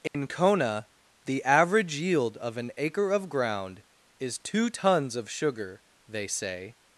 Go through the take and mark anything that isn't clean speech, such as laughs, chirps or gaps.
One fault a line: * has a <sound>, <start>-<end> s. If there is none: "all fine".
* has a dropout, 0.1-0.1 s